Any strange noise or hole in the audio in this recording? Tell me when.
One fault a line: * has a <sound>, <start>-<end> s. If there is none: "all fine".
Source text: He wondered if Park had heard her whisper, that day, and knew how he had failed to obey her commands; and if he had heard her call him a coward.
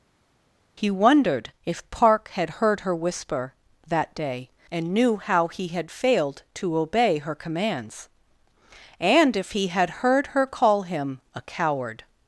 all fine